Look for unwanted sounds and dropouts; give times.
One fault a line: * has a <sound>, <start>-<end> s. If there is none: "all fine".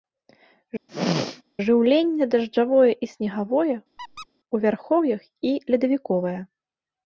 * has a throat clearing, 0.9-1.4 s
* has a squeak, 4.0-4.3 s